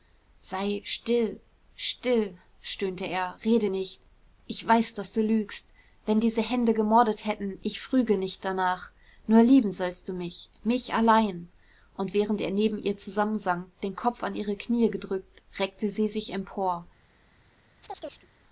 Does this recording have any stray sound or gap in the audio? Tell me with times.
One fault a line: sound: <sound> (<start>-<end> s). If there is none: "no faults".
sound: chirp (17.8-18.3 s)